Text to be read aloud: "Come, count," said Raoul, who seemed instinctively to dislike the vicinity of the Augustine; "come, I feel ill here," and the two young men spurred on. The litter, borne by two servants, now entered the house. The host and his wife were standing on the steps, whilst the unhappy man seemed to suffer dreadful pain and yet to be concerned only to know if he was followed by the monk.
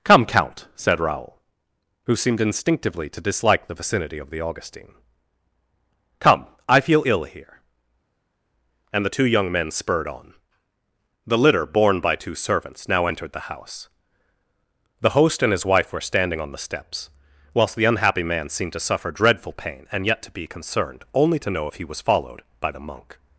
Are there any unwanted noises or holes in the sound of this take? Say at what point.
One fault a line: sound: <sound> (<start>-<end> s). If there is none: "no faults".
no faults